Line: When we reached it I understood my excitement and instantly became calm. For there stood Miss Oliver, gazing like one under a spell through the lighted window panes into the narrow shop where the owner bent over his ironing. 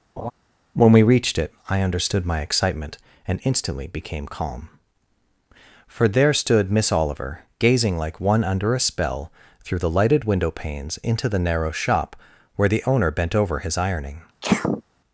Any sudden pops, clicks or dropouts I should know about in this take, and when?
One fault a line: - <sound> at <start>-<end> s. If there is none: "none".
- laugh at 0.2-0.3 s
- sneeze at 14.4-14.8 s